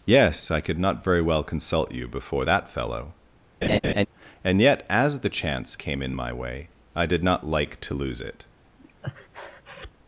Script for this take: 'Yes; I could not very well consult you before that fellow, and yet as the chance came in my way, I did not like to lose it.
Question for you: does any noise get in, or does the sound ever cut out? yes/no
yes